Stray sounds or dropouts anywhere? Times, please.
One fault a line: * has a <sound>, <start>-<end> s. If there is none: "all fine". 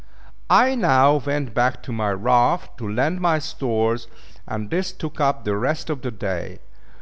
all fine